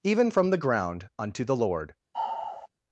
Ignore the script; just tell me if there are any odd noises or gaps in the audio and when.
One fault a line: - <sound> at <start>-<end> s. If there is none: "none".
- sigh at 2.1-2.7 s